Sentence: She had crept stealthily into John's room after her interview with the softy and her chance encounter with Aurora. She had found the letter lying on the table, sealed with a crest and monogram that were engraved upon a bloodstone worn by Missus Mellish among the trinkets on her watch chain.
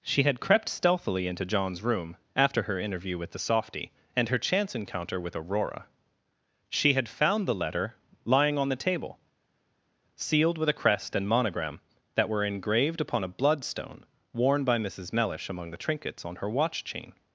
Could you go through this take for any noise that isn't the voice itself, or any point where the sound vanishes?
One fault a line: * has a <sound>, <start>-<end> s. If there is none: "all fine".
all fine